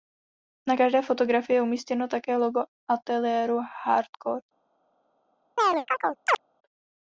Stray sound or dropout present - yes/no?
yes